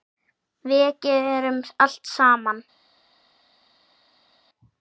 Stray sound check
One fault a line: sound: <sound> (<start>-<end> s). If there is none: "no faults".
no faults